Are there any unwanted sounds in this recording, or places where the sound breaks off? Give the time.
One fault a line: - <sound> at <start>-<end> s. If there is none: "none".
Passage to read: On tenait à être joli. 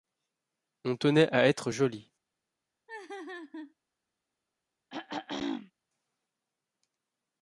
- laugh at 2.9-3.7 s
- throat clearing at 4.9-5.7 s